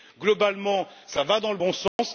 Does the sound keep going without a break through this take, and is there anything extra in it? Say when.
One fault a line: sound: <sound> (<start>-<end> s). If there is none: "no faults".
sound: dropout (1.9-2.0 s)